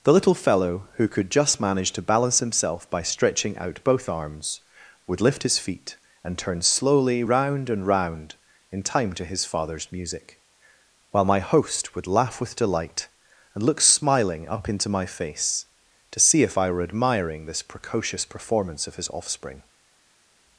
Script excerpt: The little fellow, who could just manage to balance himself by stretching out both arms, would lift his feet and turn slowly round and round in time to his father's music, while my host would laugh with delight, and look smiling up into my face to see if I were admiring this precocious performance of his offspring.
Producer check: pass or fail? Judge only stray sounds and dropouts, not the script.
pass